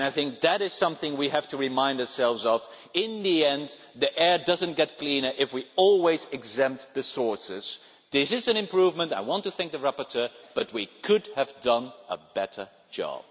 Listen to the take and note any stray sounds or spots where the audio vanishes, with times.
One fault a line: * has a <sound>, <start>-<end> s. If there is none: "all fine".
all fine